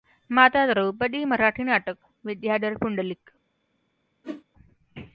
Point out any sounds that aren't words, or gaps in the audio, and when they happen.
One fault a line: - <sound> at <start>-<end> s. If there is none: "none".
- whoosh at 4.2-4.4 s